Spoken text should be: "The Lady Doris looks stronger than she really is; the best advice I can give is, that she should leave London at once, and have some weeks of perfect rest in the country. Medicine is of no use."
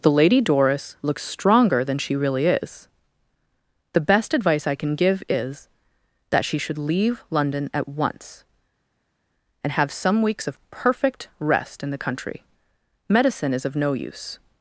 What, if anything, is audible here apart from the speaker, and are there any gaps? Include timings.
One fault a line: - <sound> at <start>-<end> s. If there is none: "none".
none